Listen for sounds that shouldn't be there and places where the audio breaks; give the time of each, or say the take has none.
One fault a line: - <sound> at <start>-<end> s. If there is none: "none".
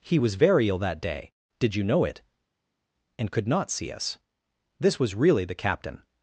none